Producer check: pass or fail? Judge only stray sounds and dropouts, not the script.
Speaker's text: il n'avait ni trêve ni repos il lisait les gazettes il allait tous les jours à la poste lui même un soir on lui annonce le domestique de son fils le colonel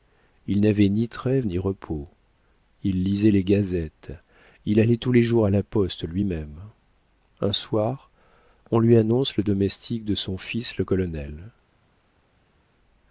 pass